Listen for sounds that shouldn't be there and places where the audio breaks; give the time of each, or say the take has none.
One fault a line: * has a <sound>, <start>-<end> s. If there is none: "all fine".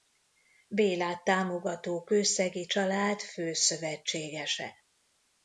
all fine